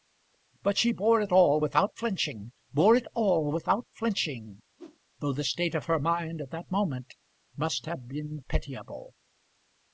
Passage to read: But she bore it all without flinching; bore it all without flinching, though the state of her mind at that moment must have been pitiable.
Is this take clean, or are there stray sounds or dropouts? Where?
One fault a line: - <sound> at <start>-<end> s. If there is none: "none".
- whoosh at 4.8-5.0 s